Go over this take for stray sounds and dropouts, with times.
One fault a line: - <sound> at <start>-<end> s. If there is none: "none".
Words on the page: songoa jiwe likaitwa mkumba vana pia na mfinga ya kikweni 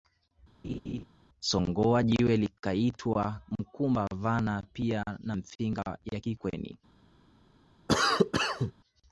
- laugh at 0.6-1.0 s
- cough at 7.9-8.7 s